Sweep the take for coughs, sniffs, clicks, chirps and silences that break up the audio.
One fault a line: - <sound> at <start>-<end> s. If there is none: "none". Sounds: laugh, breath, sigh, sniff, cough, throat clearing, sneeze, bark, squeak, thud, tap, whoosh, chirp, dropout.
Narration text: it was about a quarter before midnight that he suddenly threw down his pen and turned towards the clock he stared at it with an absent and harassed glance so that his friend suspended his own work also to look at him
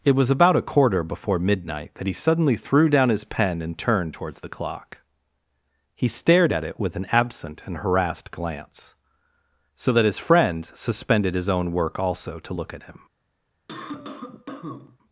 - cough at 13.7-15.0 s